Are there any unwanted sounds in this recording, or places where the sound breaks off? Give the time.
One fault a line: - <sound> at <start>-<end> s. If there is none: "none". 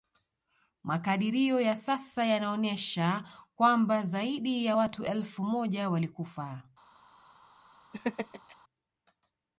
- laugh at 7.9-8.6 s